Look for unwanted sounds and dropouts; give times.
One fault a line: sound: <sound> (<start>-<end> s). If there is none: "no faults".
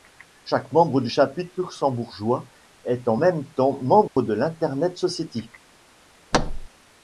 sound: dropout (4.1-4.2 s)
sound: thud (6.3-6.7 s)